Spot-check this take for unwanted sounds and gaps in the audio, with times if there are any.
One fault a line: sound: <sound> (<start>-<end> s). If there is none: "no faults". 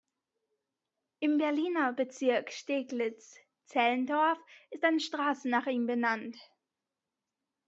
no faults